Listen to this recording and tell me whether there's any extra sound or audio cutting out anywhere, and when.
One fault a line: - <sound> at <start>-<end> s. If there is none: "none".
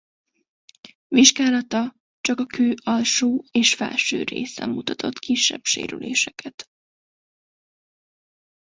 none